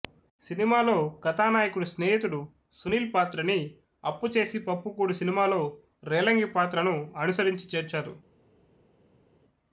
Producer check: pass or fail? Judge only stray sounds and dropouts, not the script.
pass